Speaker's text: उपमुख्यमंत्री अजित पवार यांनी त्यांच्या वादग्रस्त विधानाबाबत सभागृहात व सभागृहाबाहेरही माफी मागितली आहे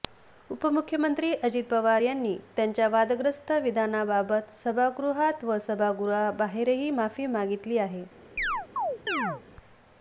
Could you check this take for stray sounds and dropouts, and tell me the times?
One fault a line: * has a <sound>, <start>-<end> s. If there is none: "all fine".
* has a chirp, 8.4-9.4 s